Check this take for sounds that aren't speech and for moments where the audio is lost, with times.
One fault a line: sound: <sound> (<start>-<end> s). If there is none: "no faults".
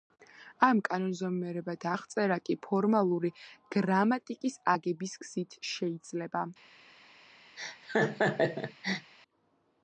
sound: laugh (7.6-9.1 s)